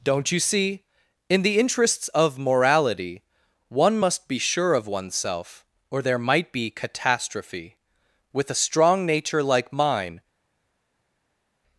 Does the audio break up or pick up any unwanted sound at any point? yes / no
no